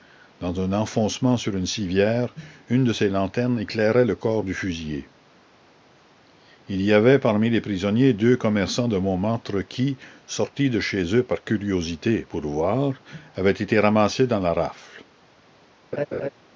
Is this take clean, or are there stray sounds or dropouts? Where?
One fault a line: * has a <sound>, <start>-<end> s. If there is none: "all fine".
* has a laugh, 15.9-16.3 s